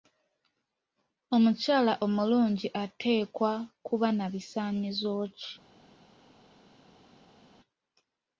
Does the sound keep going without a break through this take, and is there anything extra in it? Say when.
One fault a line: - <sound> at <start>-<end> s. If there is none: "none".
none